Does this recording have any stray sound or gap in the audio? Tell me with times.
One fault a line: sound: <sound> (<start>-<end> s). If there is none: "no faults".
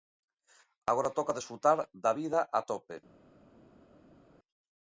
no faults